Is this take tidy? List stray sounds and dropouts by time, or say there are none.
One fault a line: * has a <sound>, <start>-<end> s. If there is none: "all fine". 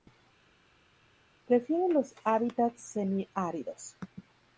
all fine